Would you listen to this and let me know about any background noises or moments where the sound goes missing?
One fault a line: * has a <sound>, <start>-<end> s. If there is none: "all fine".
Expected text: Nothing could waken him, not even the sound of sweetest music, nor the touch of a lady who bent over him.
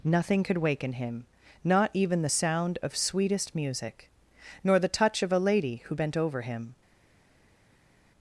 all fine